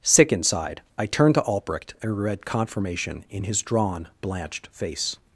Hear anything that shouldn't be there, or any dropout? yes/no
no